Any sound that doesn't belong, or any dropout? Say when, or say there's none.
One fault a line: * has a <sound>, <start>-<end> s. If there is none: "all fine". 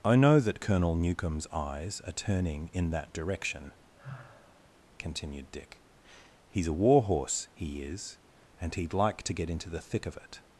* has a sigh, 4.0-4.8 s